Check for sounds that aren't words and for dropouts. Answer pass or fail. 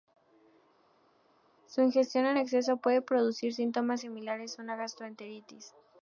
pass